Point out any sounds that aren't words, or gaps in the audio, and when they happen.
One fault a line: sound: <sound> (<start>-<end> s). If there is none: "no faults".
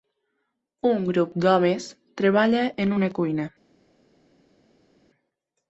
no faults